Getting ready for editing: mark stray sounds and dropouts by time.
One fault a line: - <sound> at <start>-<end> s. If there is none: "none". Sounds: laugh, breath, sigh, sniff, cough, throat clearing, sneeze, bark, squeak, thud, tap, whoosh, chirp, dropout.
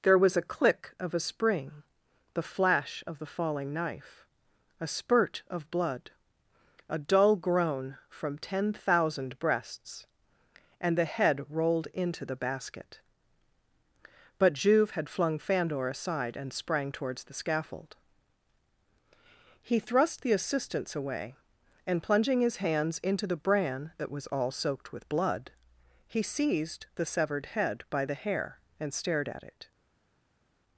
none